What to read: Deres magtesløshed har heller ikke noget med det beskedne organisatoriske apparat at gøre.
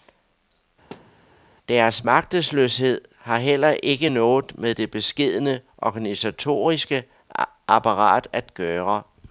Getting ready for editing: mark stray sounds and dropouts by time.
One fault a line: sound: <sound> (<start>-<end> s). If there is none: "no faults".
sound: thud (0.9-1.3 s)